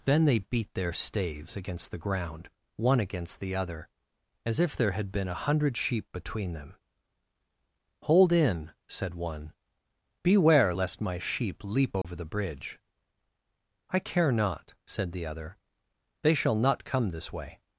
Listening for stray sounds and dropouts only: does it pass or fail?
fail